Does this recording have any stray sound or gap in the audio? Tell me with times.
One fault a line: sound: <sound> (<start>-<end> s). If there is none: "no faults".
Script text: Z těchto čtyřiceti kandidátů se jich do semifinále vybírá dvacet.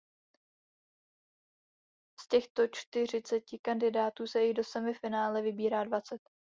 no faults